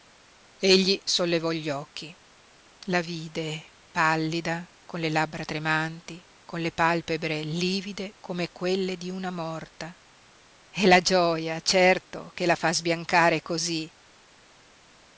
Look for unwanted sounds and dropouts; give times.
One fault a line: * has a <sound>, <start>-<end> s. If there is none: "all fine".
all fine